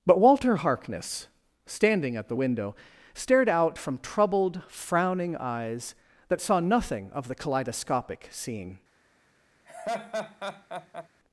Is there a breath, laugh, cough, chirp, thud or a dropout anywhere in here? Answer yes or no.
yes